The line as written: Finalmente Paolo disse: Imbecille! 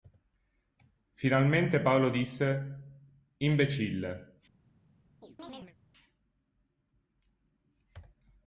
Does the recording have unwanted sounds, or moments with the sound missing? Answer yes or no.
yes